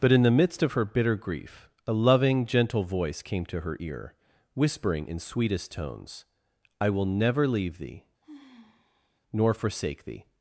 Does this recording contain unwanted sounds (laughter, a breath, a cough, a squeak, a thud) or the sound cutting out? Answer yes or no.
yes